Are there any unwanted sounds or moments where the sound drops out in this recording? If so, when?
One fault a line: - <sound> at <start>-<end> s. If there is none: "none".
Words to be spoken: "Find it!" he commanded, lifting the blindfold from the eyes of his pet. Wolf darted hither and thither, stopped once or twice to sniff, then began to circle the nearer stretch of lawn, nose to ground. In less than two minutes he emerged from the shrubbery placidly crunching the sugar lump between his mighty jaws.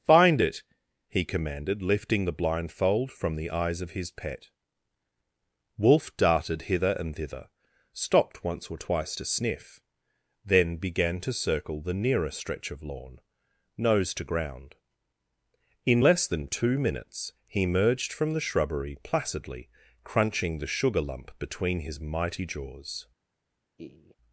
- laugh at 23.8-24.2 s